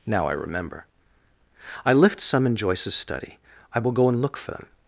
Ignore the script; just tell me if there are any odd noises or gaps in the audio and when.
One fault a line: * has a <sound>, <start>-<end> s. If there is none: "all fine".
all fine